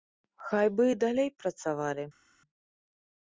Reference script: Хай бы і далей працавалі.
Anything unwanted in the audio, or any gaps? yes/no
no